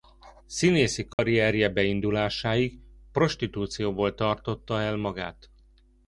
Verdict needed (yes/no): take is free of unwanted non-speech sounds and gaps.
no